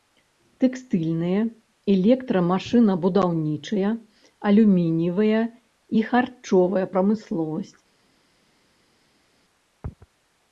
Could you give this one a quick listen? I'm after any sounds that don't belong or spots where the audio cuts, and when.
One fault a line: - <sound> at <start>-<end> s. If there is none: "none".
none